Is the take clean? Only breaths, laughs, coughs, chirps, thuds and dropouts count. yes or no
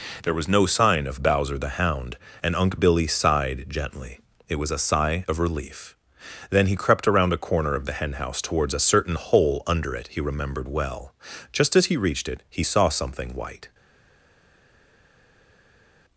yes